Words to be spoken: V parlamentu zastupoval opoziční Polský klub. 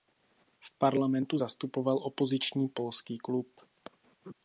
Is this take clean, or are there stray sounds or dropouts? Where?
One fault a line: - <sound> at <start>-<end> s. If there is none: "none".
none